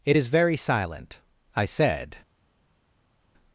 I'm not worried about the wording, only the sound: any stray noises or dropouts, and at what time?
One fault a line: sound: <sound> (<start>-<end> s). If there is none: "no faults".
no faults